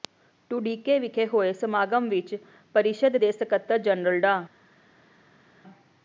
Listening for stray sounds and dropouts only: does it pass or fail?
pass